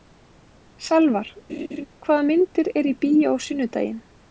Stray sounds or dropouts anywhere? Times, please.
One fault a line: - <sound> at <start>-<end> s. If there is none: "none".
- laugh at 1.5-1.9 s